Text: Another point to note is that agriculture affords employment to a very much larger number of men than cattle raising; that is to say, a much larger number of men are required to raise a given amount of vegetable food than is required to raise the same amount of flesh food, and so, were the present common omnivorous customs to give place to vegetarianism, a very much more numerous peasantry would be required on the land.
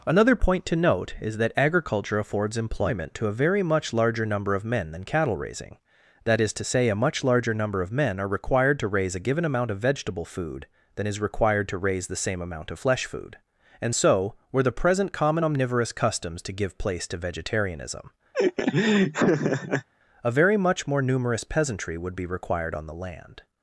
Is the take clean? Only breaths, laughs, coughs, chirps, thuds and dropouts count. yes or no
no